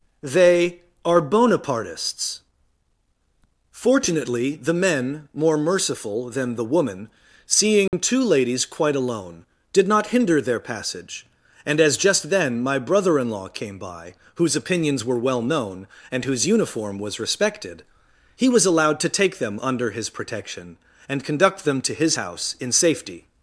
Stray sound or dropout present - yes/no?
yes